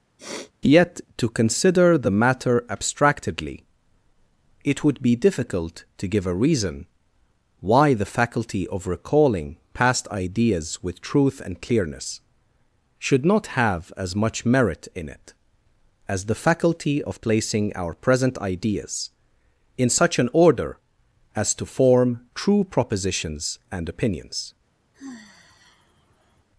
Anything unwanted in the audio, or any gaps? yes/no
yes